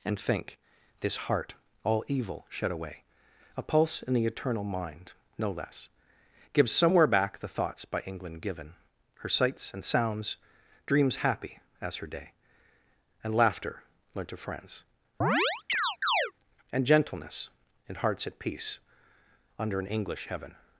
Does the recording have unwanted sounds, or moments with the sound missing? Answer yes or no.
yes